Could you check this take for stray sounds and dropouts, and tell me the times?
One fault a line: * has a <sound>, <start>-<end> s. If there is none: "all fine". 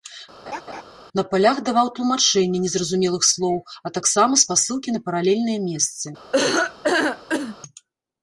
* has a laugh, 0.5-0.8 s
* has a laugh, 6.3-7.6 s